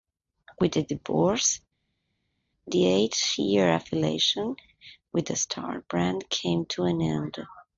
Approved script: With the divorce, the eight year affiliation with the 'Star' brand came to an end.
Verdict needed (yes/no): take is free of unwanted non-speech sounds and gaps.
yes